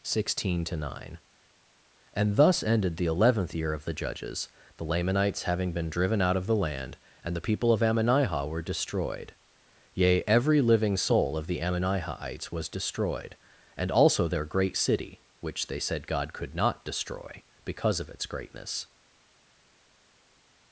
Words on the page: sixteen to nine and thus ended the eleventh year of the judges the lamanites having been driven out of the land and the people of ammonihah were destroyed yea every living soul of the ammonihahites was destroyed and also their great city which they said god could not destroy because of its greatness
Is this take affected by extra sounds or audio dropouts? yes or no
no